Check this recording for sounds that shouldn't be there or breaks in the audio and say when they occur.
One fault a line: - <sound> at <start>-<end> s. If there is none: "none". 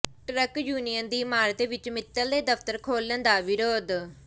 none